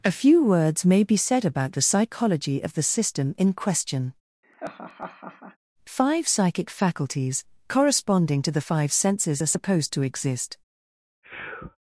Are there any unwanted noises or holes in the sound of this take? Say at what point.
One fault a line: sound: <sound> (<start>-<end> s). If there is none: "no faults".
sound: laugh (4.4-5.6 s)
sound: sneeze (11.2-11.8 s)